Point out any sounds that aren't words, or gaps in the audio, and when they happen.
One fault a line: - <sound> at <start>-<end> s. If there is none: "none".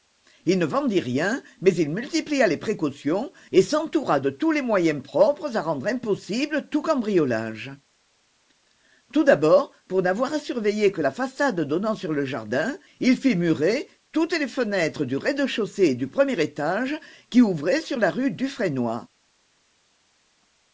none